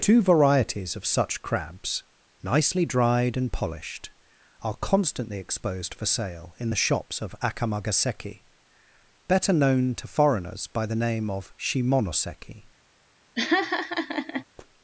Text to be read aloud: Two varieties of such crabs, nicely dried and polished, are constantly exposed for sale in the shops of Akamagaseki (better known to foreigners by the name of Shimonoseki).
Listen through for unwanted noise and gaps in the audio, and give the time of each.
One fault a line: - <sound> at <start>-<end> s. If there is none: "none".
- laugh at 13.4-14.4 s